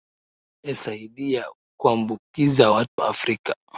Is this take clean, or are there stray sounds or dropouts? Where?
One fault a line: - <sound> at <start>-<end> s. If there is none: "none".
- dropout at 2.9-3.0 s